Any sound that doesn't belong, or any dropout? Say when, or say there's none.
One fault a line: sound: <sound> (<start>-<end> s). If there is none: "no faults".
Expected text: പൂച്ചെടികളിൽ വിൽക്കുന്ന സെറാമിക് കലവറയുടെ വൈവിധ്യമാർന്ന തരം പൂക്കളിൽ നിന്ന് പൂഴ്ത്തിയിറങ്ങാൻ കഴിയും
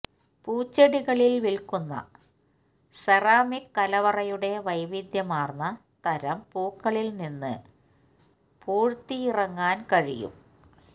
no faults